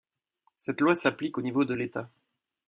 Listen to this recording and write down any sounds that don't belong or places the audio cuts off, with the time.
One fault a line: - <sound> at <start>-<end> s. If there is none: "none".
none